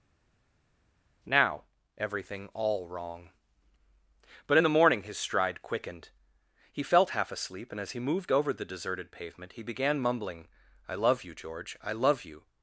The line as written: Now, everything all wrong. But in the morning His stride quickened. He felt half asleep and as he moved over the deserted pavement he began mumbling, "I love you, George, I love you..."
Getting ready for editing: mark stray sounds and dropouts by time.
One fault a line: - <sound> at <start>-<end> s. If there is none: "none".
none